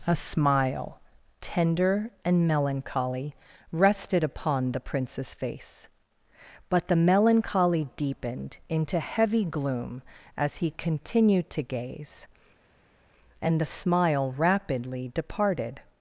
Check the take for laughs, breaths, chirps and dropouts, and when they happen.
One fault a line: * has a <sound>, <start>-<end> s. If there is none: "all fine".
all fine